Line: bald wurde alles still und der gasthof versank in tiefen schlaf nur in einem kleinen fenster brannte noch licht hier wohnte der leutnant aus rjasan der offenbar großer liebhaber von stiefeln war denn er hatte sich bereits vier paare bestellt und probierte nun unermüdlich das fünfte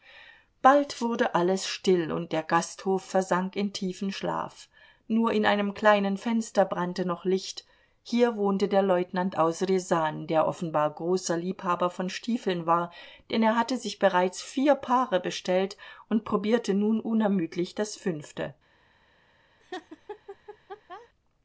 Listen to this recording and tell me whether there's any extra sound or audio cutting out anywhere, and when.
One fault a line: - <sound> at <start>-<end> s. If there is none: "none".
- laugh at 19.6-21.1 s